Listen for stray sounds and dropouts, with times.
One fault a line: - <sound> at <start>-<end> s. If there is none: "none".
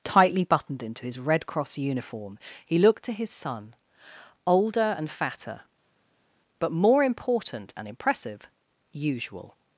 none